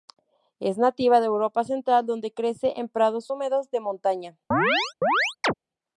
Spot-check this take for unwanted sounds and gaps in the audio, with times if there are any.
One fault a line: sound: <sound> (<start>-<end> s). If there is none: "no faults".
sound: chirp (4.5-5.5 s)